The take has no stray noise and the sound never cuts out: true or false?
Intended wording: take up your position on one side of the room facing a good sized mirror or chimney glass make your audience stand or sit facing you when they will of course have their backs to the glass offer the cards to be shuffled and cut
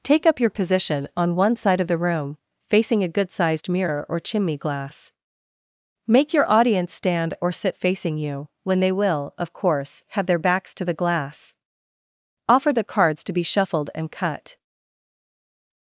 true